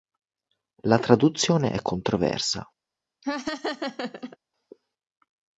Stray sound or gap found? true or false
true